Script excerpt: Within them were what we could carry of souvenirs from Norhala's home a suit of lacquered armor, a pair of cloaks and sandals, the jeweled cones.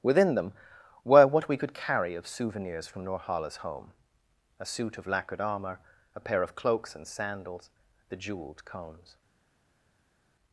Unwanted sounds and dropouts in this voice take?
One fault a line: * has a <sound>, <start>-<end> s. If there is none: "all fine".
all fine